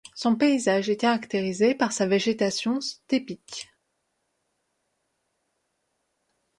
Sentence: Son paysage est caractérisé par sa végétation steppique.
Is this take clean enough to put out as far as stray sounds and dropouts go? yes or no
yes